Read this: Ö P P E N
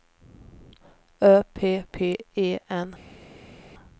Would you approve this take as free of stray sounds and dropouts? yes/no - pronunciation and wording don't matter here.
yes